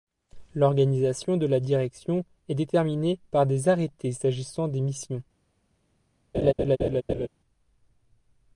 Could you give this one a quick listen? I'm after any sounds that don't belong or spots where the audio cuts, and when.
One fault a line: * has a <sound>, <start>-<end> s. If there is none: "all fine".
* has a laugh, 6.3-7.3 s